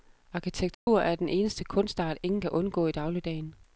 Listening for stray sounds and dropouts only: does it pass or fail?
fail